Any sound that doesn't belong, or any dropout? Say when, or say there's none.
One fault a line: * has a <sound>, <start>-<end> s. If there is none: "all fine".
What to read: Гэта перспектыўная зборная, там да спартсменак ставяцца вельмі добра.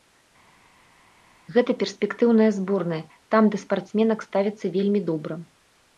all fine